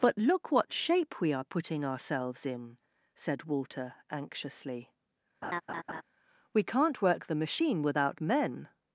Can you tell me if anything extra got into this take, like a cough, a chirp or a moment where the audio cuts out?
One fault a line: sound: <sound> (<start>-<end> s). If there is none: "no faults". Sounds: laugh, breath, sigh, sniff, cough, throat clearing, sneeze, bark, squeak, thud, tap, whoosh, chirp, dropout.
sound: laugh (5.4-6.0 s)